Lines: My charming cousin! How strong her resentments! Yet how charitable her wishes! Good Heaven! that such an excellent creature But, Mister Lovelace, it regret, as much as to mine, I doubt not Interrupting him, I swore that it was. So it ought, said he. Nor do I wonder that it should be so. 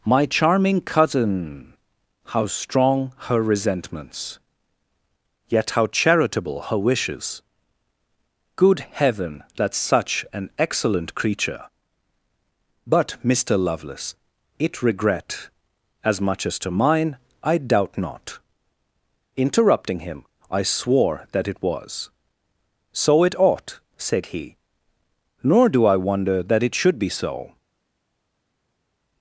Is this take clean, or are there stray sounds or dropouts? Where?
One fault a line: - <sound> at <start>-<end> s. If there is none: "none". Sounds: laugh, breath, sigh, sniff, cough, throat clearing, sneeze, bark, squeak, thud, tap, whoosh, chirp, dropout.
none